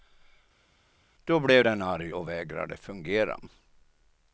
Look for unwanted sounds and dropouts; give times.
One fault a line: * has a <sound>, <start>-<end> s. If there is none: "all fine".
all fine